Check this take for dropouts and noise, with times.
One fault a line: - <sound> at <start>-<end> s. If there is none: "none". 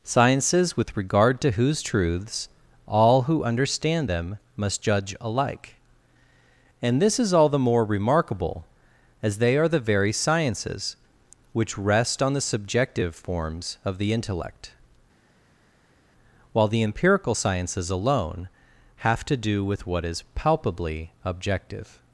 none